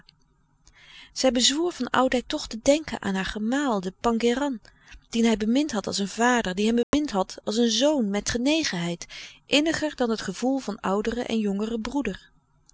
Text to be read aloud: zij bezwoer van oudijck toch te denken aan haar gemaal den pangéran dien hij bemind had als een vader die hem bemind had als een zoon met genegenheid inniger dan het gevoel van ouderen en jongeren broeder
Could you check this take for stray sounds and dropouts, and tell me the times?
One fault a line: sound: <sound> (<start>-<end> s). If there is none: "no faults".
sound: dropout (6.8-6.9 s)